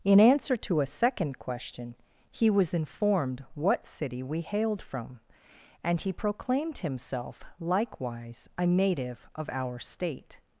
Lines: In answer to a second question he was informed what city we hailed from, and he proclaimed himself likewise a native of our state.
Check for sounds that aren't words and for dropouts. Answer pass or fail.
pass